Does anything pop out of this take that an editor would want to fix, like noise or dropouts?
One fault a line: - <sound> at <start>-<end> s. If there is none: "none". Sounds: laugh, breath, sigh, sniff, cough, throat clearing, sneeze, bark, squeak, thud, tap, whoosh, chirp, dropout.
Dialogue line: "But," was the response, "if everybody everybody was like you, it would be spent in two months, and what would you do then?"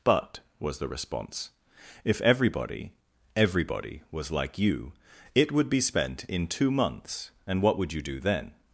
none